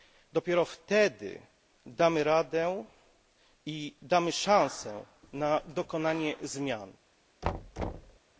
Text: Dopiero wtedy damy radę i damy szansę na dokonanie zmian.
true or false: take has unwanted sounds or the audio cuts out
true